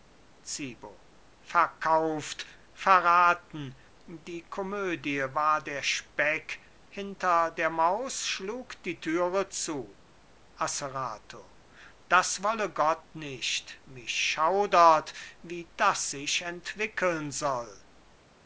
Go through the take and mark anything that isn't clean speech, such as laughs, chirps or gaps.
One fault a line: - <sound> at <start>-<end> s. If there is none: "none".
none